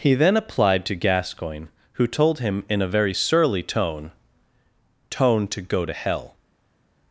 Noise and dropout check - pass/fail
pass